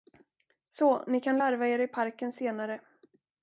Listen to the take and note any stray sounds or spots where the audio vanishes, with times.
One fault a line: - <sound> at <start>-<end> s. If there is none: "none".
none